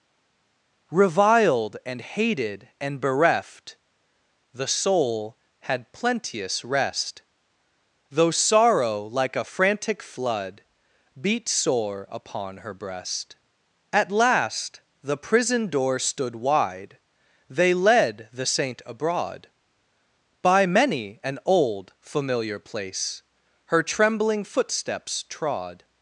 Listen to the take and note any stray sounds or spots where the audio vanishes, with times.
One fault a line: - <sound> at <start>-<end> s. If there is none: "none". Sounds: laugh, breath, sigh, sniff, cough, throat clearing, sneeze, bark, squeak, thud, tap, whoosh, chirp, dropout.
none